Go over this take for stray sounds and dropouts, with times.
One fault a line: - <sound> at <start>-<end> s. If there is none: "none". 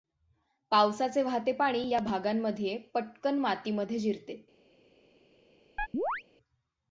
- chirp at 5.8-6.2 s